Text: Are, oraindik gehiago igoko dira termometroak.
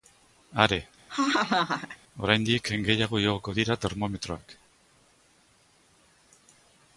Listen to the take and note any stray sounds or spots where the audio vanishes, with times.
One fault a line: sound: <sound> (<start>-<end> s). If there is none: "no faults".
sound: laugh (1.1-2.0 s)